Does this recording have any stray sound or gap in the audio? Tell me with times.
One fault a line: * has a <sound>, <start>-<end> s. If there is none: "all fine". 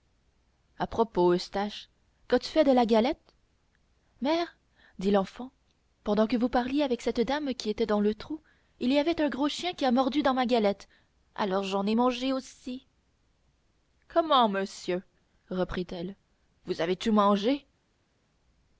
all fine